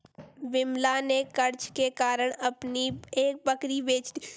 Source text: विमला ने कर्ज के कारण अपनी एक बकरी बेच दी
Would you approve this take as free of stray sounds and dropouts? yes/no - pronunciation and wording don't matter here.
yes